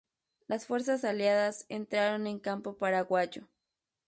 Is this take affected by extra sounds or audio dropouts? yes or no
no